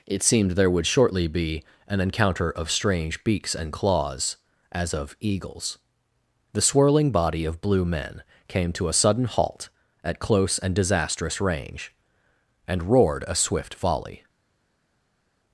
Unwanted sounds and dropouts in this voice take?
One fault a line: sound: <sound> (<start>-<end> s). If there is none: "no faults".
no faults